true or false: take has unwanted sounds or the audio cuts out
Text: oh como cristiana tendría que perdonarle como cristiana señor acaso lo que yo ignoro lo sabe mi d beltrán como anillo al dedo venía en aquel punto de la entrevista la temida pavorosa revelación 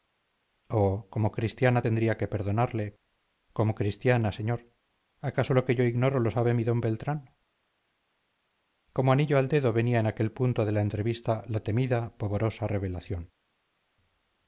false